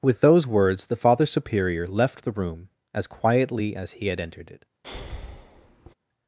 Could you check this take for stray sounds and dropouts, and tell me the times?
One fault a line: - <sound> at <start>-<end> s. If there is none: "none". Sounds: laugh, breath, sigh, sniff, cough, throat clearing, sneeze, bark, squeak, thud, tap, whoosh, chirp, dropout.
- breath at 4.8-5.9 s